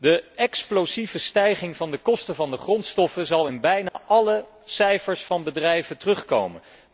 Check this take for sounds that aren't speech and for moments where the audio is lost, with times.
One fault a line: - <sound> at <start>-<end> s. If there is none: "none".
- dropout at 3.9-4.0 s